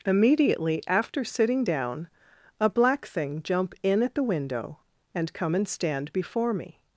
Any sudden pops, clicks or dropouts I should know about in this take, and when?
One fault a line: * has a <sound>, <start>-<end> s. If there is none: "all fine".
all fine